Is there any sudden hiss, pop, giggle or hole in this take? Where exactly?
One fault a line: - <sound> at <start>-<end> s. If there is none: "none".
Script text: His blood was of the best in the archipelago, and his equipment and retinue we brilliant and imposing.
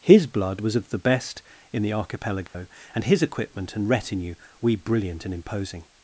- dropout at 2.5-2.5 s